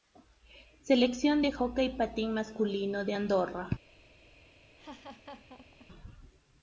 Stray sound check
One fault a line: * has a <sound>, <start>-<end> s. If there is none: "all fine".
* has a laugh, 4.8-5.9 s